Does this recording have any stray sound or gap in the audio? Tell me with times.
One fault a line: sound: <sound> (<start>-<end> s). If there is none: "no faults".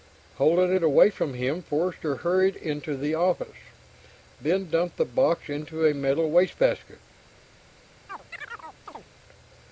sound: chirp (8.1-9.1 s)